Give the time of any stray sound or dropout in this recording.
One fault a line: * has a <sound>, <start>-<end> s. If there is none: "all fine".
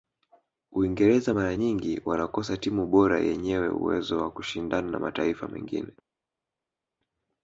all fine